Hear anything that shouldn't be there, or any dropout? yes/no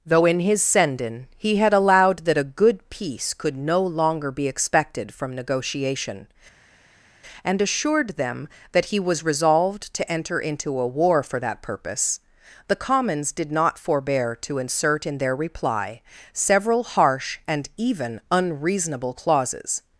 no